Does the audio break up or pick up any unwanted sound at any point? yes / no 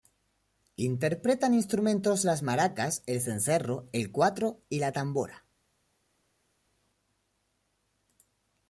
no